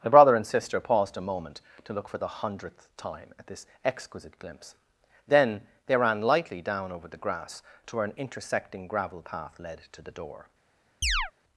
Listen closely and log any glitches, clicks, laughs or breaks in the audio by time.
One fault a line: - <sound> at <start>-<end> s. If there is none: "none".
- chirp at 11.0-11.3 s